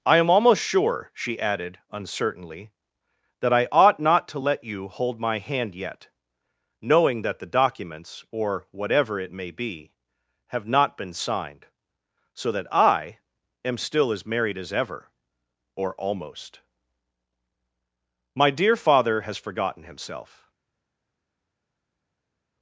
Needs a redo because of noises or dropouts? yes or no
no